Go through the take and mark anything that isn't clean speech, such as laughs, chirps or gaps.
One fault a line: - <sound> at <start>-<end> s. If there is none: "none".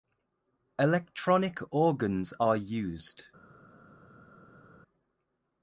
none